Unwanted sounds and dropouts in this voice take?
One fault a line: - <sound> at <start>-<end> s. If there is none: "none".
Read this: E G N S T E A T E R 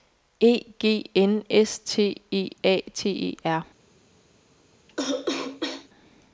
- cough at 4.9-5.9 s